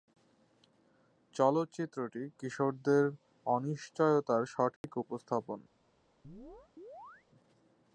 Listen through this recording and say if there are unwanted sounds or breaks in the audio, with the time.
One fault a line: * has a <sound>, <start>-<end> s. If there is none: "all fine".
* has a dropout, 4.8-4.8 s
* has a chirp, 6.2-7.3 s